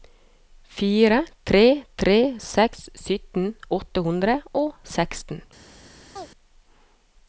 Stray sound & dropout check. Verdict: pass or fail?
fail